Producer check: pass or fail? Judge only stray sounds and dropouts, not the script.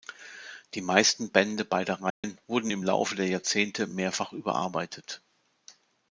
fail